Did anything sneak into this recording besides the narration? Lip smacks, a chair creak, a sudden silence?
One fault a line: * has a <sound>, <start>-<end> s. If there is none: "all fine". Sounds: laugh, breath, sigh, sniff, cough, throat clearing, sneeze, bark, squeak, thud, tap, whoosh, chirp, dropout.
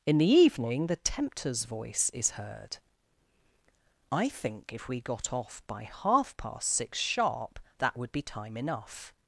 all fine